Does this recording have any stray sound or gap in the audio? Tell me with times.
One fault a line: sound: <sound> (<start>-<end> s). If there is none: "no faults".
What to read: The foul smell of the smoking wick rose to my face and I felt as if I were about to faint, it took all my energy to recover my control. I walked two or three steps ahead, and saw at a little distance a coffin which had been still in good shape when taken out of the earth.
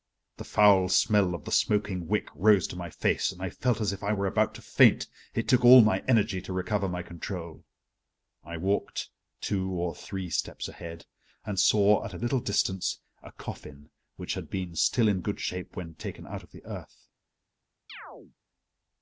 sound: chirp (17.9-18.4 s)